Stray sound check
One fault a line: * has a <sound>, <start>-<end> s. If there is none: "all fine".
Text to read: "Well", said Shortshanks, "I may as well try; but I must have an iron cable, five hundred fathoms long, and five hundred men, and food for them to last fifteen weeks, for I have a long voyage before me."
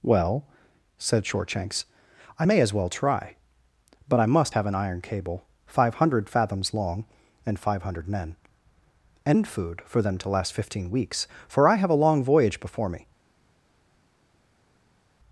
all fine